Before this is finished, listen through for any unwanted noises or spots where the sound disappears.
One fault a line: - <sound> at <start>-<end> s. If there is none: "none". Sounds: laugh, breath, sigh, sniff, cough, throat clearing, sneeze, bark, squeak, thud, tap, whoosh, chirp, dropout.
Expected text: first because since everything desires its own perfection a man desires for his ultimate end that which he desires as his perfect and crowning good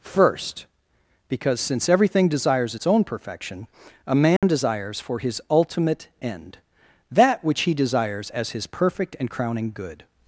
- dropout at 4.4-4.4 s